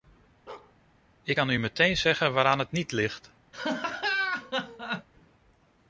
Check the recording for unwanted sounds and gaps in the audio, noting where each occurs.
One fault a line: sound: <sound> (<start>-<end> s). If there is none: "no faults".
sound: bark (0.5-0.8 s)
sound: laugh (3.5-5.1 s)